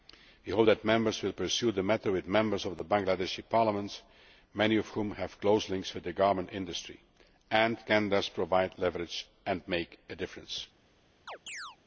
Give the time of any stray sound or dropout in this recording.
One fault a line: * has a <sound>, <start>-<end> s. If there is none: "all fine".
* has a chirp, 11.3-11.8 s